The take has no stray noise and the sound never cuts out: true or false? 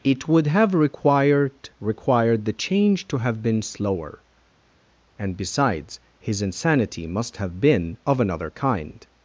true